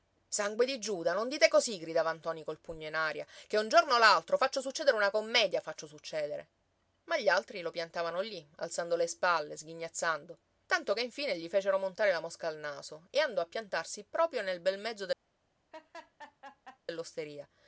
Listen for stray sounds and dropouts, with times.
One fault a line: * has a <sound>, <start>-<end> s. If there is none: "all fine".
* has a laugh, 15.7-16.8 s